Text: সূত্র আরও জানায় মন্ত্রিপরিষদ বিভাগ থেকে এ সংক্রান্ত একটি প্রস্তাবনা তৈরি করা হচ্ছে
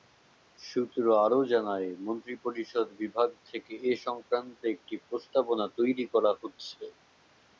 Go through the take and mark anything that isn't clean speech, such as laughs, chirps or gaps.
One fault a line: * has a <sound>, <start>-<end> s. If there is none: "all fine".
all fine